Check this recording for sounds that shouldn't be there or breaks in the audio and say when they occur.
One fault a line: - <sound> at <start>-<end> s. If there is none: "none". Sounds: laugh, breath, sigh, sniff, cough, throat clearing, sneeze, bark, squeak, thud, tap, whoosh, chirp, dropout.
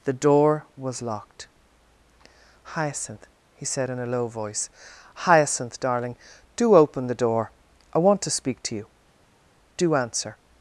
none